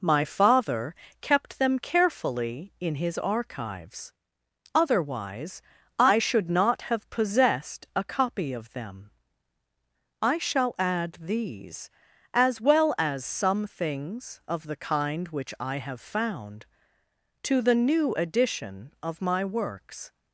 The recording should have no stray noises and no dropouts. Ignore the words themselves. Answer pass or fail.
pass